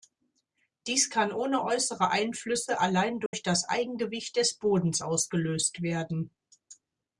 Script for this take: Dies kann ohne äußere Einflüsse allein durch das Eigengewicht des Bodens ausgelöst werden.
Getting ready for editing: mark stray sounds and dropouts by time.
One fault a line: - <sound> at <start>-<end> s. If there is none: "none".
- dropout at 3.3-3.3 s